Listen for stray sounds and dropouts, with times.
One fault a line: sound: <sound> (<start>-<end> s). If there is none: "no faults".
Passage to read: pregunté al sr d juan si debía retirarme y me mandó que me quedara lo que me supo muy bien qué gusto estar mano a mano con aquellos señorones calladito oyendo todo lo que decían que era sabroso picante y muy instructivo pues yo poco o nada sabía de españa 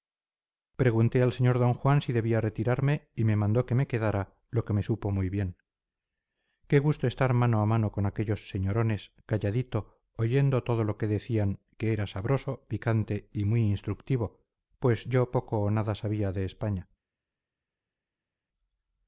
no faults